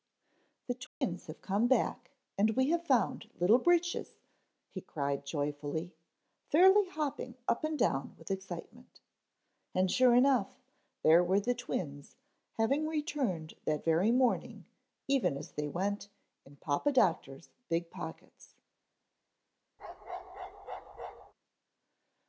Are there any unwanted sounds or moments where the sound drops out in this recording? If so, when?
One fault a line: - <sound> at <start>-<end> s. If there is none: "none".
- dropout at 0.9-1.0 s
- bark at 19.8-21.3 s